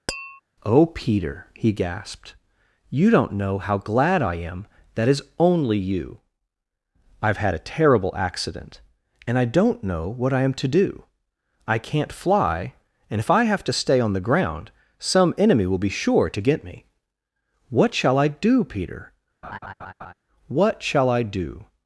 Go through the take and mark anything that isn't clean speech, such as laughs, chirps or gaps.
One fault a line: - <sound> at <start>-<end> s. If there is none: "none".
- tap at 0.1-0.4 s
- laugh at 19.4-20.1 s